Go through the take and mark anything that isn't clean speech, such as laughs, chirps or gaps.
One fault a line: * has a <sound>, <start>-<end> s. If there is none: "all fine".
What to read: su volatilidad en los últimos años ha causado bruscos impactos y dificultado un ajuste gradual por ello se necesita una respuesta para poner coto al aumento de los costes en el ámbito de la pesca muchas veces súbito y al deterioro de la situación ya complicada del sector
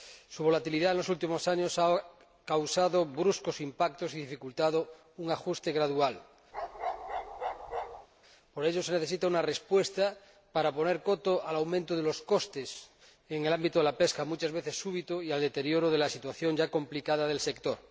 * has a bark, 6.5-8.1 s